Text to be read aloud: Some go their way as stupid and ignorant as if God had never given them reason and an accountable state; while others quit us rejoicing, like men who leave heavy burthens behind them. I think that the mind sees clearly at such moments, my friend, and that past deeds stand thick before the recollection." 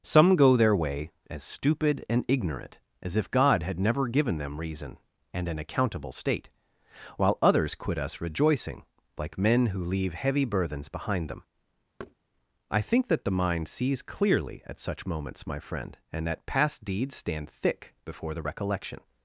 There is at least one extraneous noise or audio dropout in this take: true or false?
true